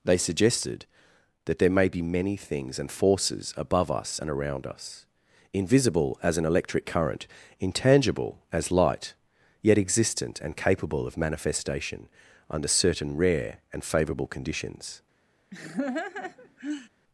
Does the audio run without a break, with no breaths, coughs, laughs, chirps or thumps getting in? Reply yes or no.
no